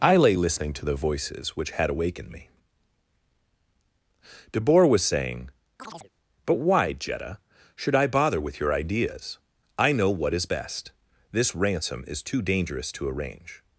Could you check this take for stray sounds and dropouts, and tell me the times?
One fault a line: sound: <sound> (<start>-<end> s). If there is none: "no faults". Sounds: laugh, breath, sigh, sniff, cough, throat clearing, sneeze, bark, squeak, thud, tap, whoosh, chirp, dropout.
sound: chirp (5.8-6.1 s)